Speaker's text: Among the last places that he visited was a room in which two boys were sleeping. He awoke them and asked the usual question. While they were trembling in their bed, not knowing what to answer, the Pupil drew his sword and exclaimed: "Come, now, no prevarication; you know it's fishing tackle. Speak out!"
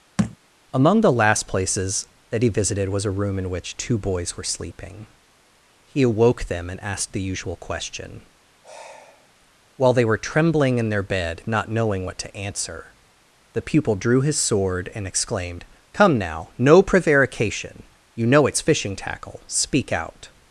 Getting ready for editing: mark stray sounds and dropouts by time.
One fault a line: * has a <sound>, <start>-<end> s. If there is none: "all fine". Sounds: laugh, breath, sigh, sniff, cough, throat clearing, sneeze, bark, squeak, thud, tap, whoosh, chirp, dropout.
* has a thud, 0.2-0.4 s
* has a sigh, 8.6-9.3 s